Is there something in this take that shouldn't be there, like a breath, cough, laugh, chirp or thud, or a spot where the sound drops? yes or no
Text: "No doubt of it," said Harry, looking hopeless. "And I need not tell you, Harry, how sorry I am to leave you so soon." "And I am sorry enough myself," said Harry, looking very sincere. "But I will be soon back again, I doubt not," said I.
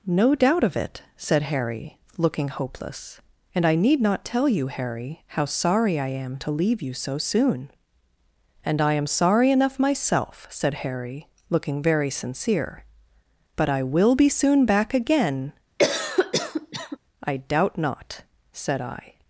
yes